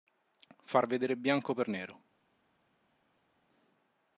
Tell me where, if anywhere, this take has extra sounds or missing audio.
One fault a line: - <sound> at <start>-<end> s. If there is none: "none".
none